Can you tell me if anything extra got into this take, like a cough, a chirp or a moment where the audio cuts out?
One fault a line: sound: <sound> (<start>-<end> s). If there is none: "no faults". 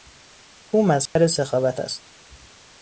sound: dropout (1.1-1.2 s)